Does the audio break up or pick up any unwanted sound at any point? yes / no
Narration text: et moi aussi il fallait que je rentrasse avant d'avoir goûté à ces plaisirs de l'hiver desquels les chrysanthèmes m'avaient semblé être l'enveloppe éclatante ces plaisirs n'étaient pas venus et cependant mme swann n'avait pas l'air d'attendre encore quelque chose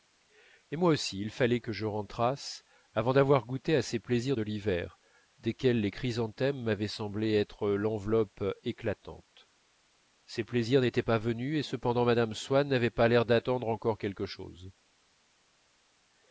no